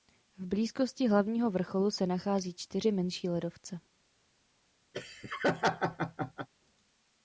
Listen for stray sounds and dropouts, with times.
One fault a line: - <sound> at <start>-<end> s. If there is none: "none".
- laugh at 4.9-6.5 s